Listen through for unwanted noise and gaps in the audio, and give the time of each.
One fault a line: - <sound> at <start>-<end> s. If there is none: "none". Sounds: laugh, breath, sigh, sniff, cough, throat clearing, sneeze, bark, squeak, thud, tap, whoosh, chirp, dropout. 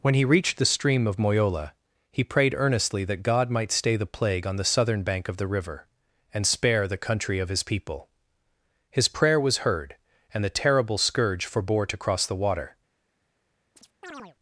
- chirp at 13.8-14.4 s